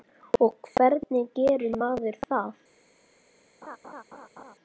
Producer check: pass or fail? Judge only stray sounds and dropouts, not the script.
fail